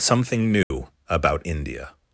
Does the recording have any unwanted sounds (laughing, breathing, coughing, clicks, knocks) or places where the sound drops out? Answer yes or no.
yes